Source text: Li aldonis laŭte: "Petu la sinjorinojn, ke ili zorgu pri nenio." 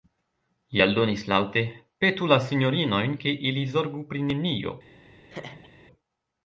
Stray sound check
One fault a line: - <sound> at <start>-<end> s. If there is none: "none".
- laugh at 5.3-5.7 s